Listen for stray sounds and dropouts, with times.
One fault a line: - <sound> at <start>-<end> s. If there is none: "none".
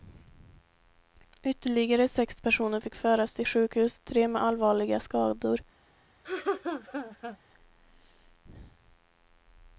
- laugh at 6.2-7.4 s